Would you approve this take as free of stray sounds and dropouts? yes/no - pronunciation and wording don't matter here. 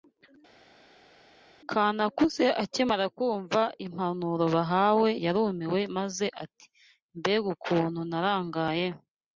yes